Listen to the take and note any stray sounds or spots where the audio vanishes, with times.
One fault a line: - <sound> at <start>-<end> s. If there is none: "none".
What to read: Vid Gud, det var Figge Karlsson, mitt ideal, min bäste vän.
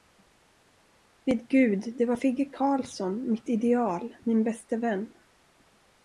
none